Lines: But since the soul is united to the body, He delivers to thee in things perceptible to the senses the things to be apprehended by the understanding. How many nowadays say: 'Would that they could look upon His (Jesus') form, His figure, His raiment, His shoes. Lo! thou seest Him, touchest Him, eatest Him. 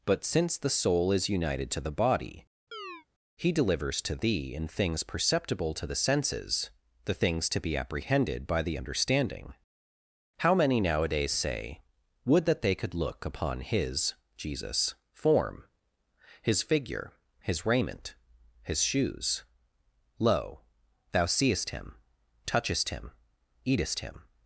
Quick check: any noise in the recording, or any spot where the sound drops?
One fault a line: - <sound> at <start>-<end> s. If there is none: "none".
- chirp at 2.7-3.1 s